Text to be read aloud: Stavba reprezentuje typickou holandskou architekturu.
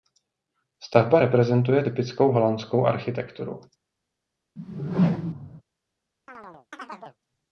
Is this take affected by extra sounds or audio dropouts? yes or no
yes